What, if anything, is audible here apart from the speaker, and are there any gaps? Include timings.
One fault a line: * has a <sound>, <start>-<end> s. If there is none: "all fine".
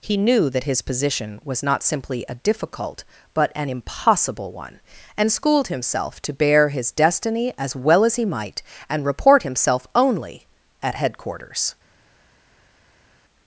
all fine